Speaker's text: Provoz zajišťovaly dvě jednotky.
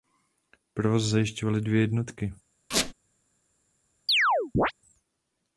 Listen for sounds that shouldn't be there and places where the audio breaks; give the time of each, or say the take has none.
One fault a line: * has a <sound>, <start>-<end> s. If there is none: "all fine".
* has a squeak, 2.7-2.9 s
* has a chirp, 4.1-4.7 s